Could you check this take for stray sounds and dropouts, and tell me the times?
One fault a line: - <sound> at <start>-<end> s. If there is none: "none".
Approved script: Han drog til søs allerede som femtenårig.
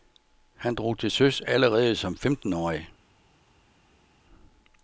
none